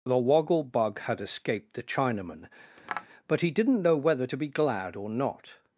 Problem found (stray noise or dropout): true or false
true